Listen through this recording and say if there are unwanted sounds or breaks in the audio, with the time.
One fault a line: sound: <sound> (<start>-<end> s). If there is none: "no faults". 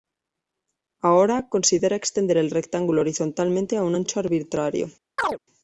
sound: chirp (5.2-5.4 s)